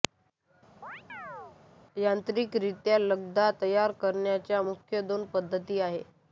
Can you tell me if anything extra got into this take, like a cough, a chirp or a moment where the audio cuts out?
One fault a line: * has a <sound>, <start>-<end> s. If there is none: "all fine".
* has a chirp, 0.8-1.6 s